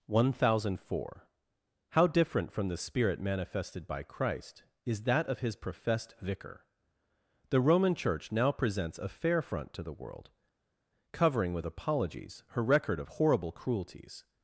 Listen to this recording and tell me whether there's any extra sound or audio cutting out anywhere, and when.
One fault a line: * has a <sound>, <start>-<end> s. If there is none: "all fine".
all fine